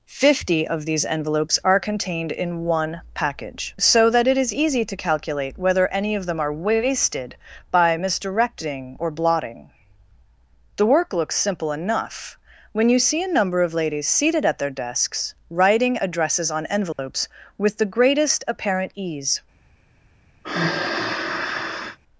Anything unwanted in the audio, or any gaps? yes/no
yes